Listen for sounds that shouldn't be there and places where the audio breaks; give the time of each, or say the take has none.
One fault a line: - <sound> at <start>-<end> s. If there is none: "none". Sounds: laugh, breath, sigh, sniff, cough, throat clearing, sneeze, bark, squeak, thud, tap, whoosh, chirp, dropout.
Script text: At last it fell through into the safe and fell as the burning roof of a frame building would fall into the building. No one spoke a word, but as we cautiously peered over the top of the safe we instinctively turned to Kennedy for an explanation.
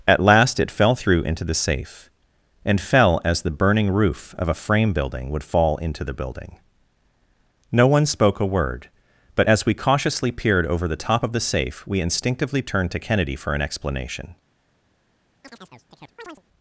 - chirp at 15.4-16.4 s